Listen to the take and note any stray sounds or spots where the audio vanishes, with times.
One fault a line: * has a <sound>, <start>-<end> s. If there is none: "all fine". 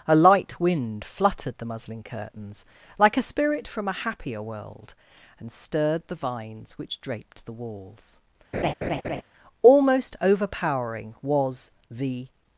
* has a laugh, 8.5-9.2 s